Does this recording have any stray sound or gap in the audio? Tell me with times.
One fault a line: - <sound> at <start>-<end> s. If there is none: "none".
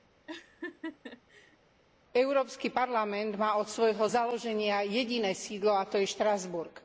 - laugh at 0.3-1.6 s